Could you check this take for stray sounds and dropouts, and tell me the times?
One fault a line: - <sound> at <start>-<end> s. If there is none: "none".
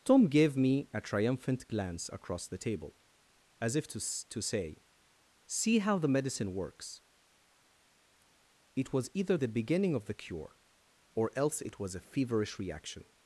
none